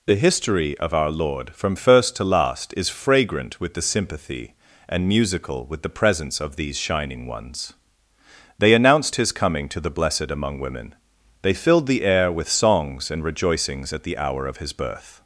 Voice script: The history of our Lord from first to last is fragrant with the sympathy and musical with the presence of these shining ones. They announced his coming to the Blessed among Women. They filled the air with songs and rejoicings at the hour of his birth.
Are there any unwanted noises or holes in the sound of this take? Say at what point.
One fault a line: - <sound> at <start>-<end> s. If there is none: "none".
none